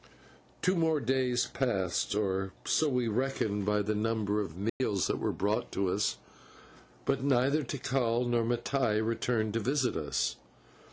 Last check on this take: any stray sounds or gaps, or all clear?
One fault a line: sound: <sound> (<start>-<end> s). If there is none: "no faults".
sound: dropout (4.7-4.8 s)